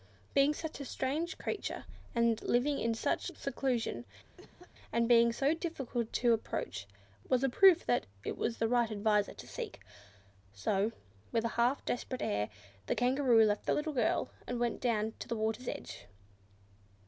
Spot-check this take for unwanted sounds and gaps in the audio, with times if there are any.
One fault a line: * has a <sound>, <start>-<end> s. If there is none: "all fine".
* has a cough, 4.4-4.7 s